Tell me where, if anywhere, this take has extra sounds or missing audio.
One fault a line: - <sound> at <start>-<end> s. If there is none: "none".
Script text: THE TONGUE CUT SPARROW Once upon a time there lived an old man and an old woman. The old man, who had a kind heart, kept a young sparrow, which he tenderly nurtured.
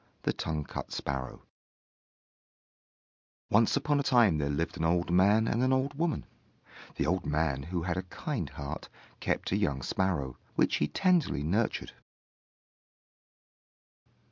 none